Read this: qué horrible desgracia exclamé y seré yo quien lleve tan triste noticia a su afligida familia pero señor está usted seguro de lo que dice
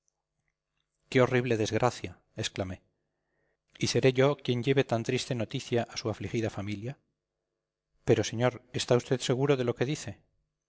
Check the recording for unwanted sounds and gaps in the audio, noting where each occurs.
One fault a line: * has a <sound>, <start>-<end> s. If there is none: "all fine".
all fine